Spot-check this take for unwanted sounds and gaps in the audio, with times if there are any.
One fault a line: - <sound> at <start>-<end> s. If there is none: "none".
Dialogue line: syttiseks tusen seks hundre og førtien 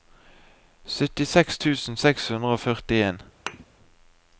- thud at 3.5-3.7 s